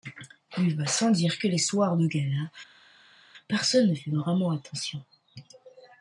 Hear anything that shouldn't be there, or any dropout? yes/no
no